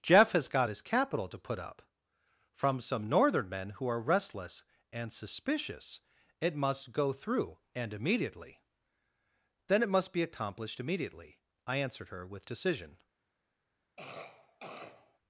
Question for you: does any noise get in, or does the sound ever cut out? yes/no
yes